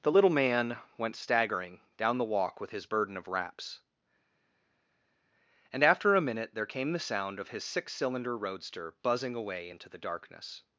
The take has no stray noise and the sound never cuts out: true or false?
true